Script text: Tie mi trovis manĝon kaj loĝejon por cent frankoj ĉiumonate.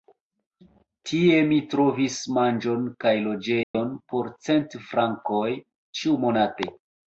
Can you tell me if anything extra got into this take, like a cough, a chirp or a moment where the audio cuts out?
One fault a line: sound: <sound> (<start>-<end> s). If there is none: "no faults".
sound: dropout (3.6-3.7 s)